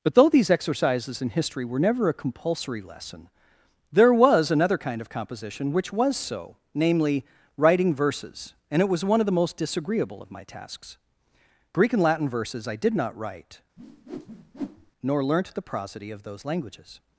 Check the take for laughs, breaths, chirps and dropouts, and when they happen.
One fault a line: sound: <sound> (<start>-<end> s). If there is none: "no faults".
sound: whoosh (13.8-14.9 s)